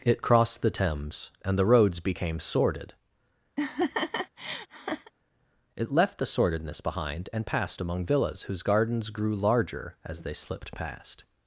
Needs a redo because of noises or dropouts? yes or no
yes